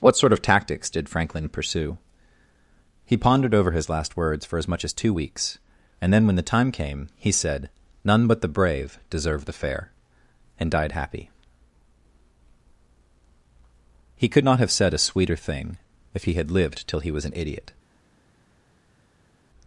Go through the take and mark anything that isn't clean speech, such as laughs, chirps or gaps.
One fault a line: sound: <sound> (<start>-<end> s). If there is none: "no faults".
no faults